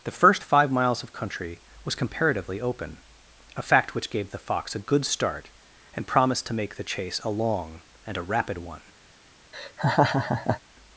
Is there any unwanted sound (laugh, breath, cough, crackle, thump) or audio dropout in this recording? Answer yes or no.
yes